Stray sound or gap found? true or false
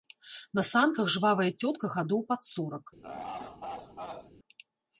true